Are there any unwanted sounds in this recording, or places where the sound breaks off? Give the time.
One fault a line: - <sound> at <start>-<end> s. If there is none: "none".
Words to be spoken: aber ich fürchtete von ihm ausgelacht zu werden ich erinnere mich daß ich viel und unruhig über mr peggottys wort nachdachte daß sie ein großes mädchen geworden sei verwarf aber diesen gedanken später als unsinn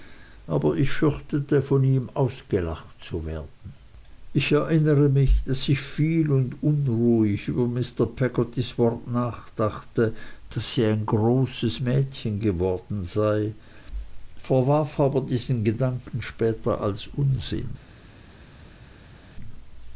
none